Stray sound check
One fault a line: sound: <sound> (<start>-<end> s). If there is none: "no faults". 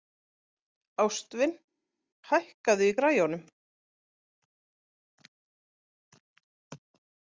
no faults